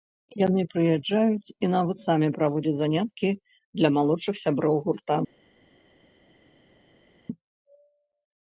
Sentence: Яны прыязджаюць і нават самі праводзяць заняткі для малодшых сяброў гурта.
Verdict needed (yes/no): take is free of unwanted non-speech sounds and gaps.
yes